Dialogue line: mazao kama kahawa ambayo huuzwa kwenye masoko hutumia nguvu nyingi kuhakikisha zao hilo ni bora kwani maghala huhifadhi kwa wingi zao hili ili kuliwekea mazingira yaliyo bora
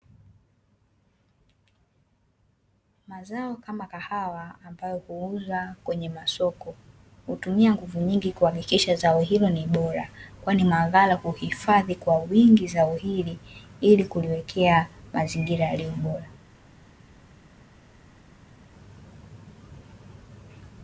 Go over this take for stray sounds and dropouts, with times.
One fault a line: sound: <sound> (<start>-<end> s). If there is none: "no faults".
no faults